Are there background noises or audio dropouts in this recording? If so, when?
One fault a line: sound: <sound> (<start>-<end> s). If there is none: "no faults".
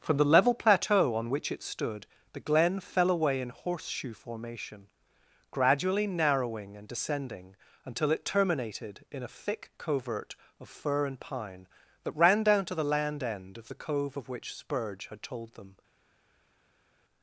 no faults